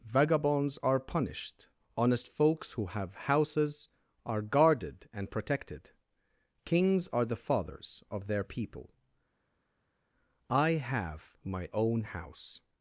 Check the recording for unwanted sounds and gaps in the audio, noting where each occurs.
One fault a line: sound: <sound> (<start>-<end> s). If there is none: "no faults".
no faults